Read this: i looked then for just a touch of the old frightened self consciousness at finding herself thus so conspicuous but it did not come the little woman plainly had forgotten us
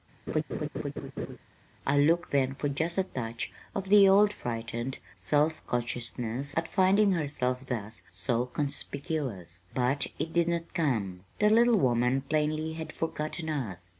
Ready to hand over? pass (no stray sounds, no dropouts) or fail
fail